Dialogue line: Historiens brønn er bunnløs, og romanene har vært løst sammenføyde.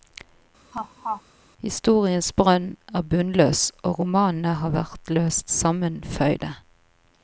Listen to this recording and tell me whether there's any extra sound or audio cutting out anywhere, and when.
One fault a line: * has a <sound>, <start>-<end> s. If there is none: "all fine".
* has a laugh, 0.7-1.2 s